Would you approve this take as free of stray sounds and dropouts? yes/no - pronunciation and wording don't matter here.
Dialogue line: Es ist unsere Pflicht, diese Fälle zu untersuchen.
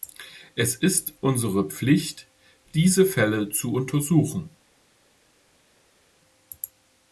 yes